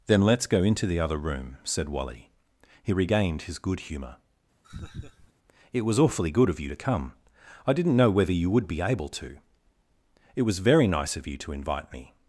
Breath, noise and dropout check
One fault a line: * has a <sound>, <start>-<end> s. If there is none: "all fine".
* has a laugh, 4.6-5.3 s